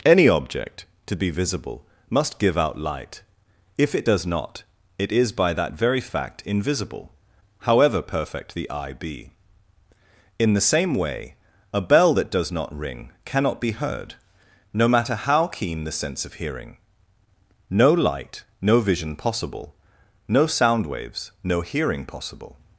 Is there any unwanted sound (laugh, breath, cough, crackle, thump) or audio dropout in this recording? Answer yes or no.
no